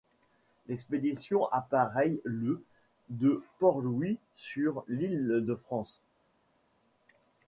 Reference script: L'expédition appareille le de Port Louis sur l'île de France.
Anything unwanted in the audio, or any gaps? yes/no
no